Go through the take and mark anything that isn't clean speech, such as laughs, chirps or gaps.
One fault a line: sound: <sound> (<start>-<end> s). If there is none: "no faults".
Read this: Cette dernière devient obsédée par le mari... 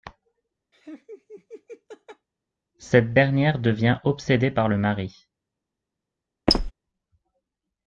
sound: laugh (0.7-2.3 s)
sound: squeak (6.5-6.7 s)